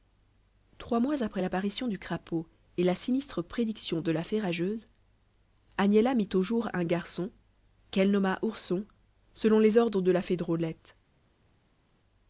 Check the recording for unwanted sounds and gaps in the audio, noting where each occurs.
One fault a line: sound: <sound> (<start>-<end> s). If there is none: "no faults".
no faults